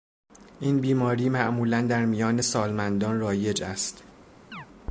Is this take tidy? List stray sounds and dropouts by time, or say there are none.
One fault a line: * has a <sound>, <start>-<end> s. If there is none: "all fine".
* has a chirp, 4.5-4.7 s